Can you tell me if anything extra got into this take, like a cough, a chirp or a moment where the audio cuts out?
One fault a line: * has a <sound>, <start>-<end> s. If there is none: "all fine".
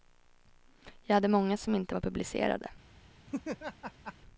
* has a laugh, 3.3-4.1 s